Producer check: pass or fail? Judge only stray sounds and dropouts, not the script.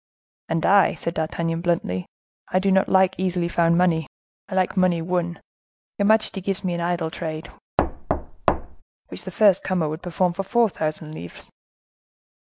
fail